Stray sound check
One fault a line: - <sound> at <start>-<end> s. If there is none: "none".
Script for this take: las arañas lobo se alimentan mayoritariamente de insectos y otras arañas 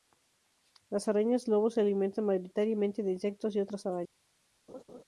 - laugh at 4.7-5.0 s